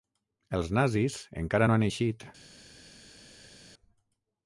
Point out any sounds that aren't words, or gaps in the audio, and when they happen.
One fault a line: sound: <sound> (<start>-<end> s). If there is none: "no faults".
no faults